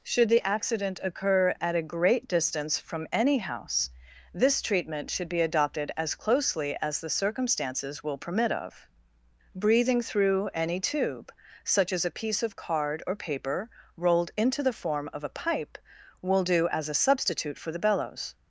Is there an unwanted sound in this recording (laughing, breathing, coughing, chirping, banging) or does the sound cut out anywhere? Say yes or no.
no